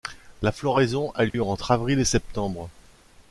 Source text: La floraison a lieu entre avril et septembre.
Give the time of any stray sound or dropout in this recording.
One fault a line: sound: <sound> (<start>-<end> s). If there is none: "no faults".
sound: dropout (1.3-1.3 s)